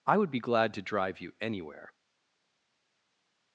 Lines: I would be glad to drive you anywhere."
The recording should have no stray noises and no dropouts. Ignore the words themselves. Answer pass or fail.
pass